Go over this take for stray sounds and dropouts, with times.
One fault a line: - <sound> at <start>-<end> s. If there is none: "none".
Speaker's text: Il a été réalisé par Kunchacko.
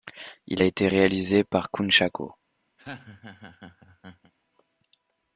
- laugh at 2.8-4.3 s